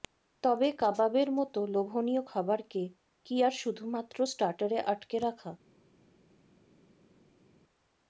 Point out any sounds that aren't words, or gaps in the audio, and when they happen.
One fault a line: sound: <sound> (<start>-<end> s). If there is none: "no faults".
no faults